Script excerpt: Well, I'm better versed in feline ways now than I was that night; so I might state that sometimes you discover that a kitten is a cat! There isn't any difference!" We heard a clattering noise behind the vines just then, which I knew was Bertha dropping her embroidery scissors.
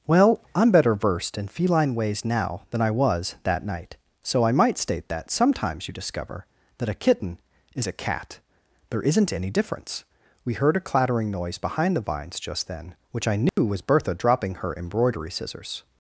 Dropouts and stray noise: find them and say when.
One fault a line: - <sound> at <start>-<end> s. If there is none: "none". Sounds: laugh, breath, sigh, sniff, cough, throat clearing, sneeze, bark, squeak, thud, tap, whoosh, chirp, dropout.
- dropout at 13.5-13.6 s